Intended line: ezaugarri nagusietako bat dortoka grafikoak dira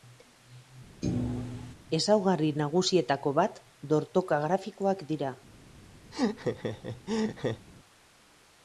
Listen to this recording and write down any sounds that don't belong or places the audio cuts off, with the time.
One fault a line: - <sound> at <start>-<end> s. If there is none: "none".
- thud at 1.0-1.7 s
- laugh at 6.1-7.7 s